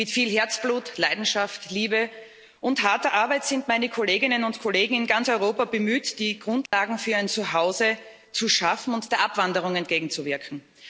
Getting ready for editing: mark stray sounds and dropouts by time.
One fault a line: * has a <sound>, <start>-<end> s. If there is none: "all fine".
* has a dropout, 6.7-6.7 s